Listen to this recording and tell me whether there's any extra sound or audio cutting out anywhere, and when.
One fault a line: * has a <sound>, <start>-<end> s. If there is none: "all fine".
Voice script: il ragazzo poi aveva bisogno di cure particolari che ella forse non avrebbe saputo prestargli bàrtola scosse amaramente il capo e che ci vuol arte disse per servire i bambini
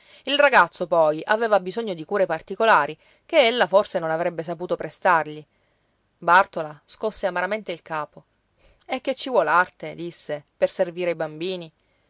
all fine